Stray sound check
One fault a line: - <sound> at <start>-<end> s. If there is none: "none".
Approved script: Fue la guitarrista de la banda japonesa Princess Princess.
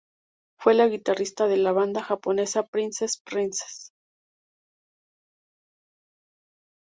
none